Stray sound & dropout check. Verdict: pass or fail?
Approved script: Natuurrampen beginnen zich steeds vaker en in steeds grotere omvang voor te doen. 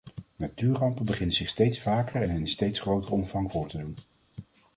pass